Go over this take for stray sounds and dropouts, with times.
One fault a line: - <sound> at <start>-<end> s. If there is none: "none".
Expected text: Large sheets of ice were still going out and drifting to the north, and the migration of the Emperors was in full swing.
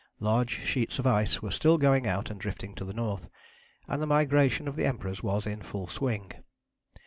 none